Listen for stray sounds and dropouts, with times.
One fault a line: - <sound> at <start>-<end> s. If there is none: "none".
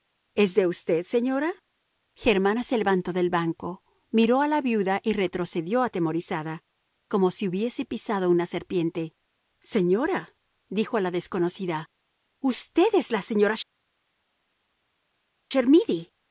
none